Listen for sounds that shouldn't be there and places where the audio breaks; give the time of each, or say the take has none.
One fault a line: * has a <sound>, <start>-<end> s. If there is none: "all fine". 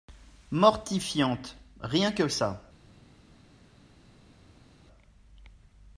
all fine